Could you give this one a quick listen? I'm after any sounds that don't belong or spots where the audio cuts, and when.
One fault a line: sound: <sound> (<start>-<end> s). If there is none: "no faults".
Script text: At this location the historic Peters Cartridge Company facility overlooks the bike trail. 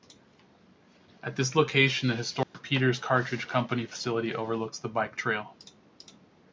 sound: dropout (2.4-2.5 s)